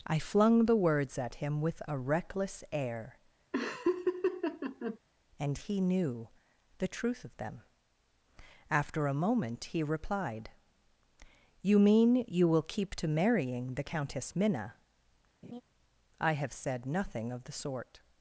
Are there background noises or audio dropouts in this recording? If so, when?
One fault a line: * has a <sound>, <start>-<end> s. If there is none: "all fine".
* has a laugh, 3.5-5.0 s
* has a laugh, 15.4-15.6 s